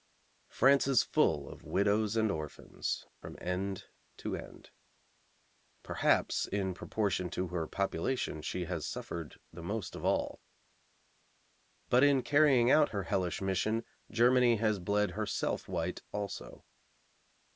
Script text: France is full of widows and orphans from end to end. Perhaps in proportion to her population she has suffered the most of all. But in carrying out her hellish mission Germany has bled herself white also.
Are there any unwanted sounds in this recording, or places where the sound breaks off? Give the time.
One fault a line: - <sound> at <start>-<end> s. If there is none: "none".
none